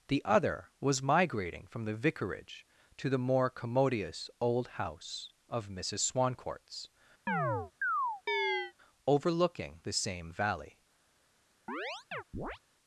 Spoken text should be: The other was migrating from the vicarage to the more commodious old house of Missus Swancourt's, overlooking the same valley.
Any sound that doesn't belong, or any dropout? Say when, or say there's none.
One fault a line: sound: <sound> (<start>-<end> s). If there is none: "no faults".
sound: chirp (7.3-8.7 s)
sound: chirp (11.7-12.6 s)